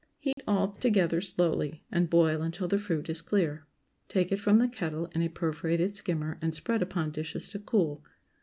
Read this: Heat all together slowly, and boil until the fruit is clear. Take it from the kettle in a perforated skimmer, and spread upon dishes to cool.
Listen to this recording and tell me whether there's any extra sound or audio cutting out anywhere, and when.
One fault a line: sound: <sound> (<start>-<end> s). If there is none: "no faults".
sound: dropout (0.3-0.4 s)